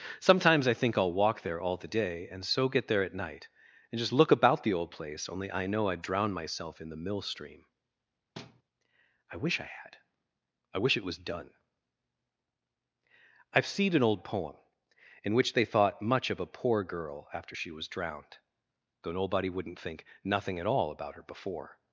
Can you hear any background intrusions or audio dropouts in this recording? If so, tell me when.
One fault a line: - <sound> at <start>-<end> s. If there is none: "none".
- thud at 8.4-8.6 s